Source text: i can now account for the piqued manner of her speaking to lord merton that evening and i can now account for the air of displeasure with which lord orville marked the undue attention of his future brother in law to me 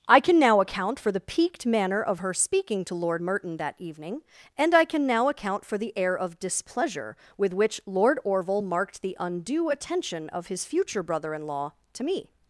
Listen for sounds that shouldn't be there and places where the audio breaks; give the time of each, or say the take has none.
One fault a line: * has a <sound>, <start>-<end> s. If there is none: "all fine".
all fine